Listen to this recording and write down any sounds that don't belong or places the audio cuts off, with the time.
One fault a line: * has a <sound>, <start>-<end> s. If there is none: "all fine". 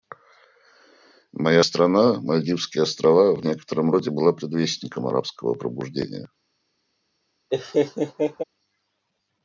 * has a laugh, 7.5-8.4 s